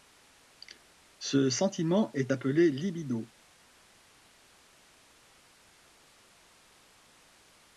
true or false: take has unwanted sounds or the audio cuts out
false